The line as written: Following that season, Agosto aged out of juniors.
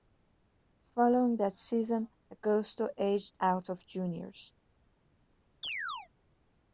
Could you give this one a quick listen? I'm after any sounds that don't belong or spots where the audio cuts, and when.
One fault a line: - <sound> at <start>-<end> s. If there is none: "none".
- chirp at 5.6-6.1 s